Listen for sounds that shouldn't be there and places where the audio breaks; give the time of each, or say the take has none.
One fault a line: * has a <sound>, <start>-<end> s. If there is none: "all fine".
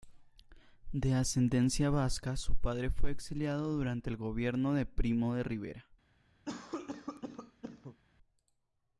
* has a cough, 6.4-8.0 s